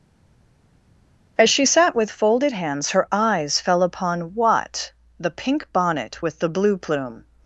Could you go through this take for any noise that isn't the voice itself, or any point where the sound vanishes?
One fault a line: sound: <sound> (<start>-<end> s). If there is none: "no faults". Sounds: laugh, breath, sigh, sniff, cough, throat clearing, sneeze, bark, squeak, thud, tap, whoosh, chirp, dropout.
no faults